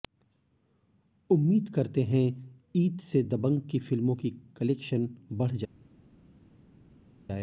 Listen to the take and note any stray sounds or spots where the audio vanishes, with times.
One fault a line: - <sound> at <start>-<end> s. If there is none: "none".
none